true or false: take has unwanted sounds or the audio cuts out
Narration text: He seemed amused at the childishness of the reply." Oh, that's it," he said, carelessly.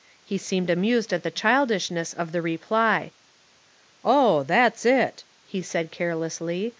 false